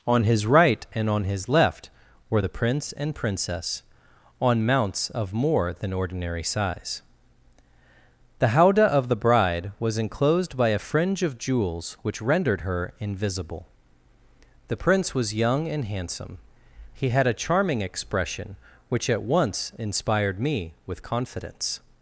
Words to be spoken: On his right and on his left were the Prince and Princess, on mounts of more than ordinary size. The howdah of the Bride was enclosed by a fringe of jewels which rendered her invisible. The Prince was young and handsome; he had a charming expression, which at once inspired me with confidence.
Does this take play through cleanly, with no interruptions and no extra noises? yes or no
yes